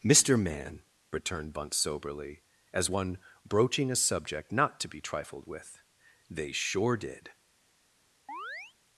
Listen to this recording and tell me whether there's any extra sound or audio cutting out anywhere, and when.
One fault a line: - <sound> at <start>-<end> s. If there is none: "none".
- chirp at 8.3-8.7 s